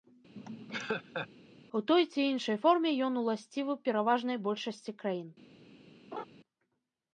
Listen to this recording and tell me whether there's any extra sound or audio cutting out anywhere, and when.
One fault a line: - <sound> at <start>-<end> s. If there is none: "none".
- laugh at 0.4-1.3 s
- laugh at 6.1-6.2 s